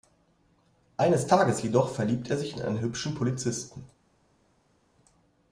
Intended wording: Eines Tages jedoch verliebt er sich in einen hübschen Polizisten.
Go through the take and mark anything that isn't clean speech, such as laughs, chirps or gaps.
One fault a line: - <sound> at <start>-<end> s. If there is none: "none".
none